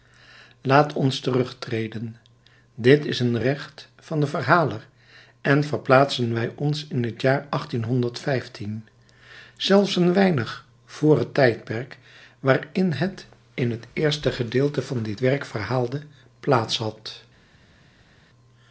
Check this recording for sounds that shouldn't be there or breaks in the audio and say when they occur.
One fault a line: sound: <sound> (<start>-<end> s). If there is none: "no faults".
no faults